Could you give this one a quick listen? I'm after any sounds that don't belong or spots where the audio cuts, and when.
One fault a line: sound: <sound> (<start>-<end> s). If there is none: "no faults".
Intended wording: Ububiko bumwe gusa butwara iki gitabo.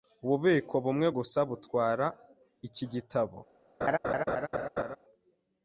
sound: laugh (3.8-5.0 s)